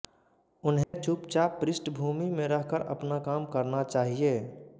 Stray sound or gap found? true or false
true